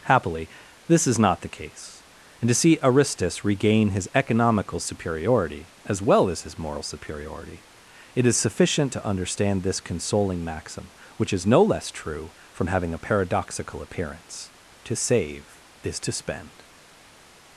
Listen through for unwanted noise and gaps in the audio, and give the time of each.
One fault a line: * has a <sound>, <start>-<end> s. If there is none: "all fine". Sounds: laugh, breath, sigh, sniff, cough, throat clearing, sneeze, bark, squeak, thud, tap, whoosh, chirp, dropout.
all fine